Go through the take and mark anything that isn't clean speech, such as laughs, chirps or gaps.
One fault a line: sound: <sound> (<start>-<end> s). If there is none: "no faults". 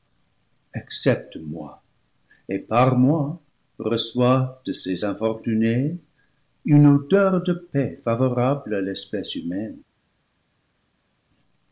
no faults